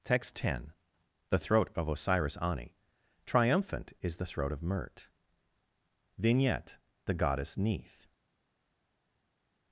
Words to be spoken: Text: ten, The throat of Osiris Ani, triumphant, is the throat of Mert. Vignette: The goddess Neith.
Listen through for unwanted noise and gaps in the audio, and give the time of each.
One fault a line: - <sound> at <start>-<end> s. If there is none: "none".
none